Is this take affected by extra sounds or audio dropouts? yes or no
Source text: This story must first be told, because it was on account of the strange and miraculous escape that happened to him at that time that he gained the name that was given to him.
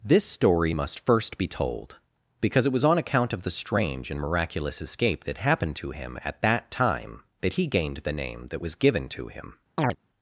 yes